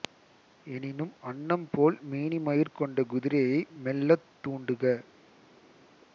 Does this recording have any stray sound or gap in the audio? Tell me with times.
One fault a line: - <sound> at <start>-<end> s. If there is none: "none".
none